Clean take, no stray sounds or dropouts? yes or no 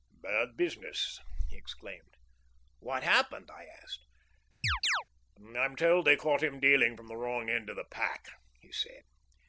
no